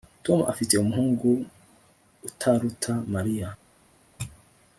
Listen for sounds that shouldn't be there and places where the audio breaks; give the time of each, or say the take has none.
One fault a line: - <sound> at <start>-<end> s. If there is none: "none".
none